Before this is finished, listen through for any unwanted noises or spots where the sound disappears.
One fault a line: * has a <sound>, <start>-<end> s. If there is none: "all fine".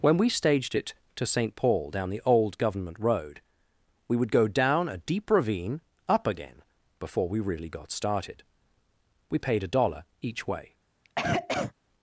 * has a cough, 11.0-11.7 s